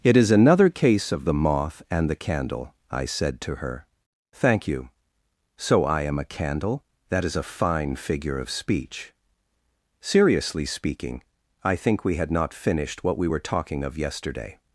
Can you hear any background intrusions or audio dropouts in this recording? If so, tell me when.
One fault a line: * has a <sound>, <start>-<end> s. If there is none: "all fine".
all fine